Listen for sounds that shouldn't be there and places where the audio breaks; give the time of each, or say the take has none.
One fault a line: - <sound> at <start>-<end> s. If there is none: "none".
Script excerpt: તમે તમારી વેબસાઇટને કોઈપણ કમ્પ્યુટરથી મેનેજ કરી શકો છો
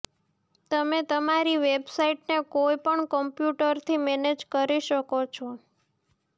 none